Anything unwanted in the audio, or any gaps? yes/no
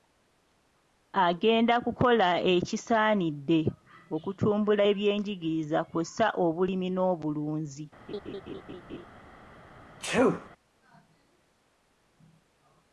yes